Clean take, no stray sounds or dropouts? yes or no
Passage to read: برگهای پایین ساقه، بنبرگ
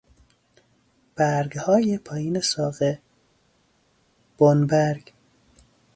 yes